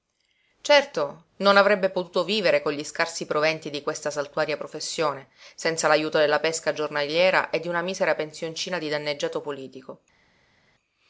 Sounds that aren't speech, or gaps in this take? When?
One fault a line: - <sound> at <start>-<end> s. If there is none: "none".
none